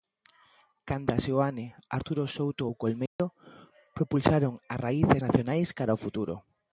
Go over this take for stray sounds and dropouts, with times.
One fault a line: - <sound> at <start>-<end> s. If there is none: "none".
- dropout at 3.1-3.2 s